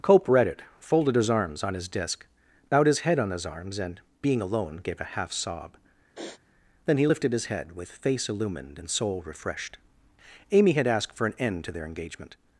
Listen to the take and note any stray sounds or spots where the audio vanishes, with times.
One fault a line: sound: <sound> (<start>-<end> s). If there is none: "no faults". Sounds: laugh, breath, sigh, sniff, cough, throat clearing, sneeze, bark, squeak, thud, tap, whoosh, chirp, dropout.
sound: sniff (6.2-6.4 s)